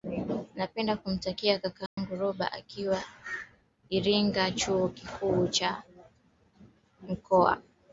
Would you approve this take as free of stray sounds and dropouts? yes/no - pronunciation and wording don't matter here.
no